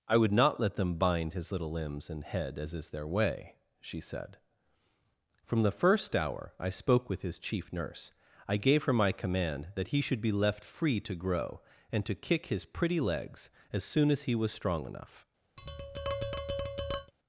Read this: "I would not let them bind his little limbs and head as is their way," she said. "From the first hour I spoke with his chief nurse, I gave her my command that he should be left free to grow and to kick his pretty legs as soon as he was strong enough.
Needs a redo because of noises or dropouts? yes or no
yes